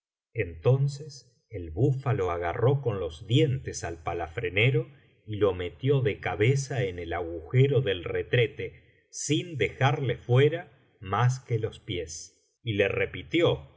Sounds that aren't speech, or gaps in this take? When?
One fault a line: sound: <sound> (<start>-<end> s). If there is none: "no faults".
no faults